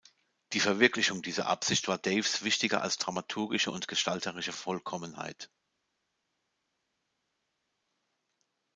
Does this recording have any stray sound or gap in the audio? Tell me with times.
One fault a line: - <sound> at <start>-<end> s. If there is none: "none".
none